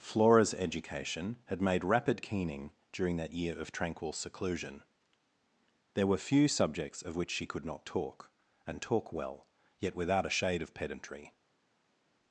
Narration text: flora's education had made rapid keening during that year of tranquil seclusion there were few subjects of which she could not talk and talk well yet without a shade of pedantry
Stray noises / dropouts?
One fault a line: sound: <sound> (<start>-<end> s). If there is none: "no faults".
no faults